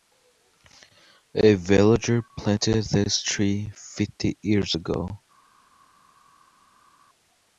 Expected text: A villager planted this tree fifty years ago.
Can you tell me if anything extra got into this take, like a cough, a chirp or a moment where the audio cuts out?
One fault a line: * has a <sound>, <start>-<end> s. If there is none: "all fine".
all fine